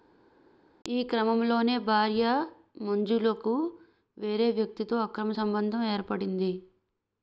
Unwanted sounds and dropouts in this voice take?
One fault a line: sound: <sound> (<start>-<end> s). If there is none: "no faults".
no faults